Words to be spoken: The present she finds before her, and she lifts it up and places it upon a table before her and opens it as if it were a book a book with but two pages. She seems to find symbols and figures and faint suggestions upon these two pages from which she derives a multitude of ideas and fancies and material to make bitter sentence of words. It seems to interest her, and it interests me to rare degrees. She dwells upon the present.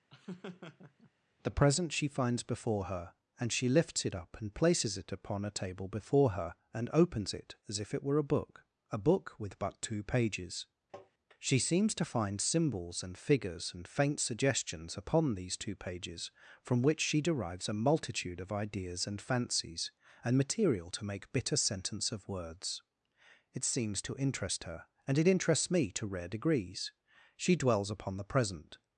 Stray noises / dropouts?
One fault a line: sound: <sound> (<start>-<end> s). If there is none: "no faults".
sound: laugh (0.1-1.1 s)
sound: tap (10.9-11.1 s)